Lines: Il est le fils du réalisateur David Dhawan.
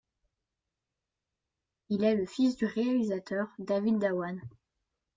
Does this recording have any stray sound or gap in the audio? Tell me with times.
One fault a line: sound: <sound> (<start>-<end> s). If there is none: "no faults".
no faults